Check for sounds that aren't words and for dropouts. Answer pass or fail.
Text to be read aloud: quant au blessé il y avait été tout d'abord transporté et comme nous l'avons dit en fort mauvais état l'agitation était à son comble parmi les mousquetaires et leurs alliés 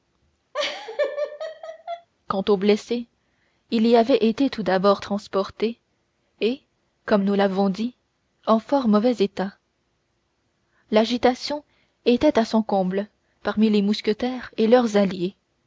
fail